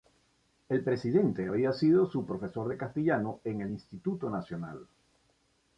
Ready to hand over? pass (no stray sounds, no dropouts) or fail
pass